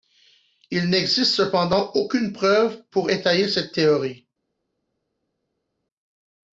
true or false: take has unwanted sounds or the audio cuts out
false